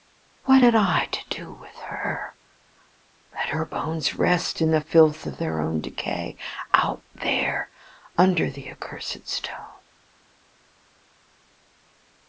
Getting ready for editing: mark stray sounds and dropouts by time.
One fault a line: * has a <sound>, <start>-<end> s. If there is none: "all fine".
all fine